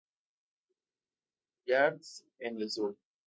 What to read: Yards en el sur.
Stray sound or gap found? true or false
false